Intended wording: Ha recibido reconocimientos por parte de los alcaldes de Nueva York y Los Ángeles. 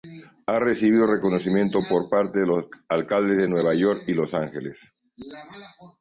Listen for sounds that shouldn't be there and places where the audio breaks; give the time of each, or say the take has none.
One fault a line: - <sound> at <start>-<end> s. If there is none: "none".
none